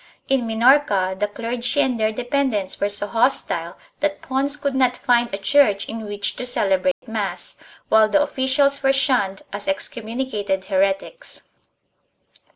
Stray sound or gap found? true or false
true